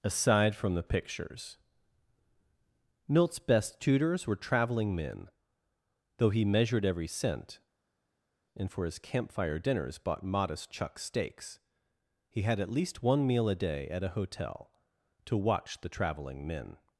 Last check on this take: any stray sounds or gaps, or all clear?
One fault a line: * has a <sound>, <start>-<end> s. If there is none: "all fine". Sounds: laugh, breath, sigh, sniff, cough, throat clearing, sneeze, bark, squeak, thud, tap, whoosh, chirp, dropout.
all fine